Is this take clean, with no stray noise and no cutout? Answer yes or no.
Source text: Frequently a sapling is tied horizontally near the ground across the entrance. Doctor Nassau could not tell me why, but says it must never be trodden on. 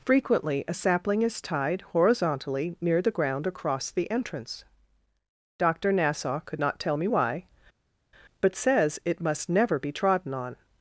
yes